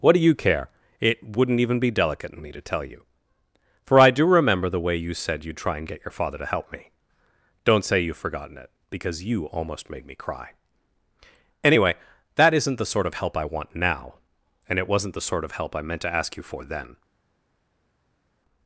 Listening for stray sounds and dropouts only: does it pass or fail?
pass